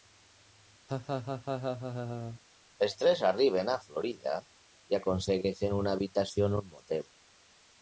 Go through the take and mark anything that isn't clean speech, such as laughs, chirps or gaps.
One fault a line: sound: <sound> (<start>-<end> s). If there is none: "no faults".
sound: laugh (0.9-2.4 s)